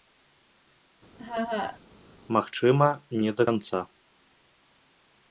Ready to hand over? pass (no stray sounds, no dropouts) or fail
fail